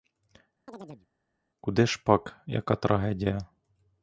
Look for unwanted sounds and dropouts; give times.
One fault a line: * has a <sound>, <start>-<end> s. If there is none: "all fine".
* has a chirp, 0.7-1.1 s